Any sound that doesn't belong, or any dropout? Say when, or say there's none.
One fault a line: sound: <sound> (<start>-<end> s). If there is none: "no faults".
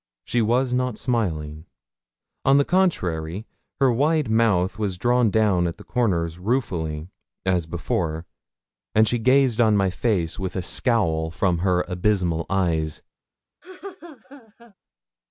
sound: laugh (13.6-14.7 s)